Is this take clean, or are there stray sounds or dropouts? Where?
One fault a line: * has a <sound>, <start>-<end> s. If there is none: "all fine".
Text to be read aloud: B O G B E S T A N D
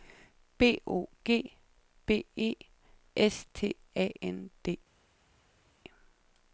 all fine